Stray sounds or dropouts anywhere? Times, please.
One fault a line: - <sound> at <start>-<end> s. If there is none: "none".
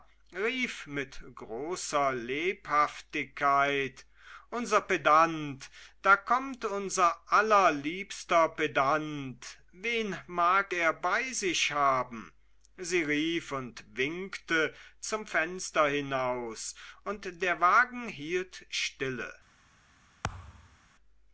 - thud at 20.2-20.8 s